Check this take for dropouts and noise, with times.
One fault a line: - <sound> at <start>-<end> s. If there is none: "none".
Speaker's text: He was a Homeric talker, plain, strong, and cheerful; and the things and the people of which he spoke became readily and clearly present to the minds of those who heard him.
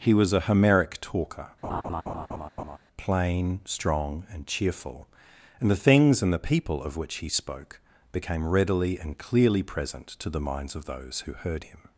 - laugh at 1.6-2.8 s